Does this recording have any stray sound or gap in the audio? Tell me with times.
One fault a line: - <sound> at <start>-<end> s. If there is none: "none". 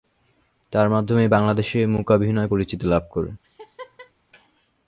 - laugh at 3.4-4.1 s